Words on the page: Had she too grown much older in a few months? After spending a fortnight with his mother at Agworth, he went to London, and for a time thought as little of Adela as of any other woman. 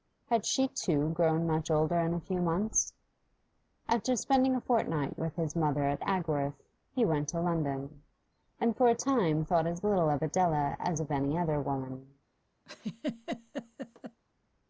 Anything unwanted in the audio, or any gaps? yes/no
yes